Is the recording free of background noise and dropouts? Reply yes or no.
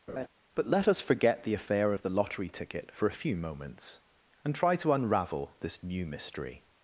no